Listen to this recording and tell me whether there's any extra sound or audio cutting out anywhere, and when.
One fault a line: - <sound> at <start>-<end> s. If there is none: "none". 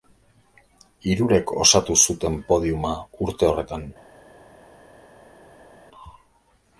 none